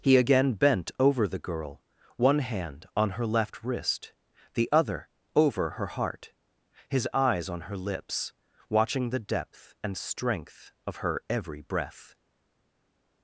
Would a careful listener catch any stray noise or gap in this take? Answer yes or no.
no